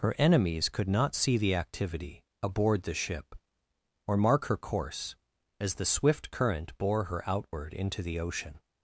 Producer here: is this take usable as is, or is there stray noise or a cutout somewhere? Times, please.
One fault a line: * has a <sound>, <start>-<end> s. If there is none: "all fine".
all fine